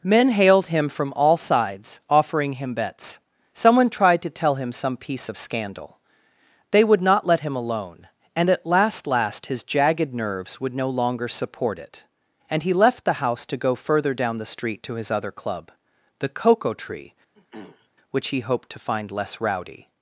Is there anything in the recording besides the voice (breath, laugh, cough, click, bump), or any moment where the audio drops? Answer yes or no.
yes